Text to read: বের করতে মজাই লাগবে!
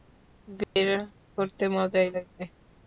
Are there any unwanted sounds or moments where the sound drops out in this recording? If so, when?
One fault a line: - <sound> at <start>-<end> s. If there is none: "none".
- dropout at 0.6-0.8 s